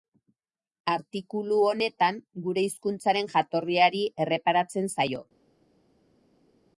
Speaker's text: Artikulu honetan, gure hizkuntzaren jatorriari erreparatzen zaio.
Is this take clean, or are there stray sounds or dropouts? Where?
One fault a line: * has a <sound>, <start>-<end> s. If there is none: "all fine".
all fine